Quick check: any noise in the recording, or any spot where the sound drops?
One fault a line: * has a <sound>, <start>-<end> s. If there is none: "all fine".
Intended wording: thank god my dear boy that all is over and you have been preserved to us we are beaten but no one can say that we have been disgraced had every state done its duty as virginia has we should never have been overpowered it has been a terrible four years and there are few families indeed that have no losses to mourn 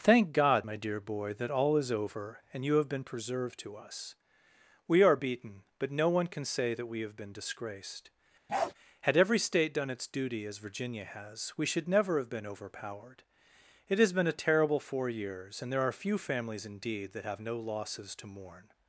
* has a bark, 8.5-8.7 s